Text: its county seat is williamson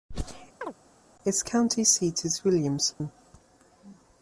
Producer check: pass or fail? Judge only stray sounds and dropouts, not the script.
fail